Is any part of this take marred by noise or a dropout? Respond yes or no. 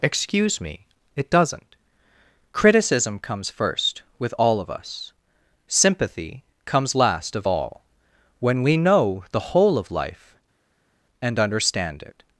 no